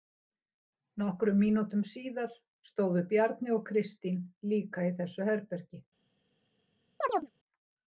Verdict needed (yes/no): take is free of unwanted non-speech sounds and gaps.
no